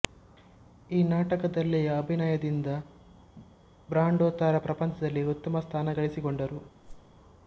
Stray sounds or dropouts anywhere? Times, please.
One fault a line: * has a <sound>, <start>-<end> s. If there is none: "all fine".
* has a whoosh, 6.8-7.2 s